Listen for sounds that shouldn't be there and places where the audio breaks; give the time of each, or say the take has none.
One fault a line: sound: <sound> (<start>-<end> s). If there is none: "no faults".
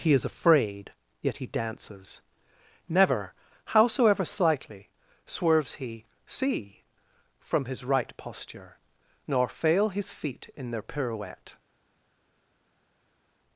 no faults